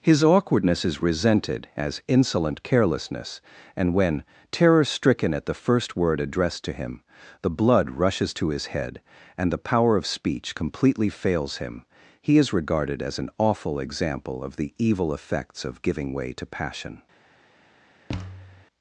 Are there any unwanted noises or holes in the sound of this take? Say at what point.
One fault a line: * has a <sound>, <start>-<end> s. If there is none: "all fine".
* has a thud, 18.1-18.6 s